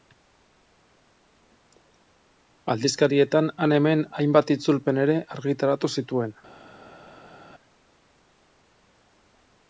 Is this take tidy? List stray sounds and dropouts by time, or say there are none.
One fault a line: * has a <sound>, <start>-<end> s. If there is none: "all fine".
all fine